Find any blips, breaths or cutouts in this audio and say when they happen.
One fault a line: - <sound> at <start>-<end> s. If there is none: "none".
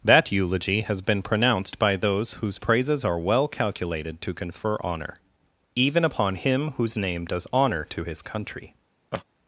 - laugh at 9.1-9.2 s